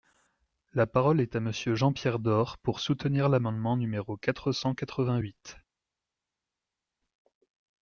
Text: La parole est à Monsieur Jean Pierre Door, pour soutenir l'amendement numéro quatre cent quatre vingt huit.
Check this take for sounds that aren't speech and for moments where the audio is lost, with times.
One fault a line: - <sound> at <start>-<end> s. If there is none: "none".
none